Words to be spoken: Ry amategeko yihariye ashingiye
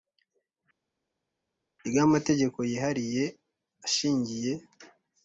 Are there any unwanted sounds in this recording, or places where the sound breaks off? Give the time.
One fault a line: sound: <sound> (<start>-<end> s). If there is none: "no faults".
no faults